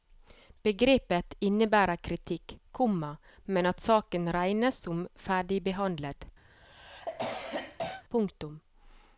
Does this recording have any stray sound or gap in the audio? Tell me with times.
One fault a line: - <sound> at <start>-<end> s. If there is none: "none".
- cough at 6.5-8.0 s